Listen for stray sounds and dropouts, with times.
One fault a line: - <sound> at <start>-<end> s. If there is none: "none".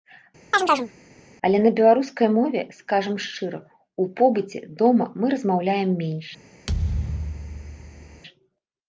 - chirp at 0.5-0.9 s
- thud at 6.7-8.2 s